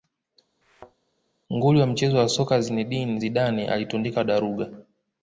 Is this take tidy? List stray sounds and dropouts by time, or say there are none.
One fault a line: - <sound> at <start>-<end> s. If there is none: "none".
- thud at 0.6-1.0 s